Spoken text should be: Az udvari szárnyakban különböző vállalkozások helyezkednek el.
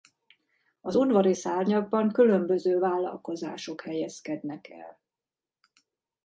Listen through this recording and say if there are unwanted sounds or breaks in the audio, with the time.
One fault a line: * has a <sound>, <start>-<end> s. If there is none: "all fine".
all fine